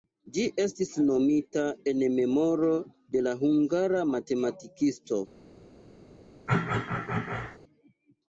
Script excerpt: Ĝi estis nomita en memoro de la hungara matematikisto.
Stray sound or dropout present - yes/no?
yes